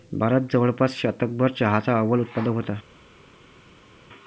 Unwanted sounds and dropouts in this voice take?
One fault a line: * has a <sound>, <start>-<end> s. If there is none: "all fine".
all fine